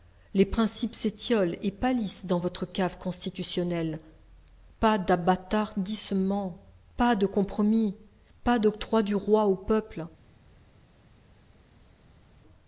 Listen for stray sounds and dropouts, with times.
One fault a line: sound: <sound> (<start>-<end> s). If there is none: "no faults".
no faults